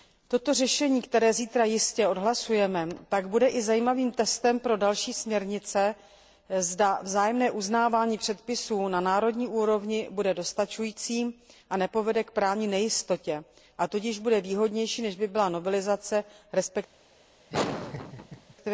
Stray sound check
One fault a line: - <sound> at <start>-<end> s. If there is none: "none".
- laugh at 17.5-18.5 s